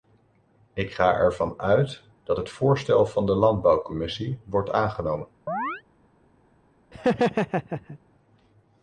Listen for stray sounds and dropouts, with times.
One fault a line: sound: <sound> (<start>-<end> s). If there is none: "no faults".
sound: chirp (5.5-5.8 s)
sound: laugh (6.9-8.0 s)